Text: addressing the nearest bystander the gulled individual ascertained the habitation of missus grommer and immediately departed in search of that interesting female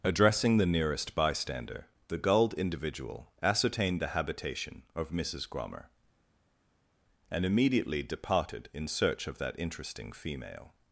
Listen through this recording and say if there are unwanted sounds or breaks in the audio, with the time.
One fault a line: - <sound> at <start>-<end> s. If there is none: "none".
none